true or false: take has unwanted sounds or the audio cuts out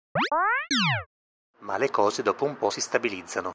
true